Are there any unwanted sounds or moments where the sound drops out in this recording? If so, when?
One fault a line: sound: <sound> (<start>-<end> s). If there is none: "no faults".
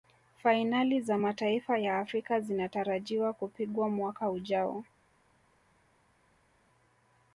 no faults